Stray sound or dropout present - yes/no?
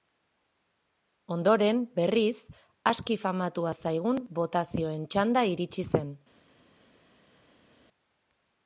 no